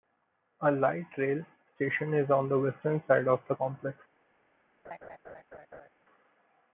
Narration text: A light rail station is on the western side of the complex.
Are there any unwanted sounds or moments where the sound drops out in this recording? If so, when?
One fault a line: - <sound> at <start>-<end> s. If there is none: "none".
- laugh at 4.8-5.9 s